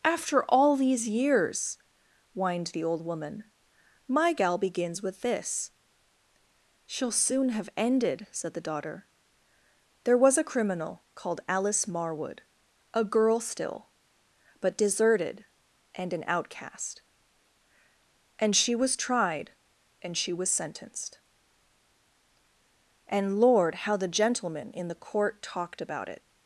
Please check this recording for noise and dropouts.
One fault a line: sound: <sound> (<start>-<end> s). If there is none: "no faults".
no faults